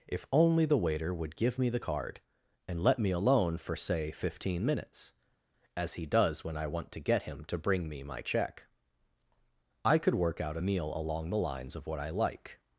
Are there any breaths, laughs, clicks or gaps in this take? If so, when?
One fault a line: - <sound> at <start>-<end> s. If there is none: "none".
none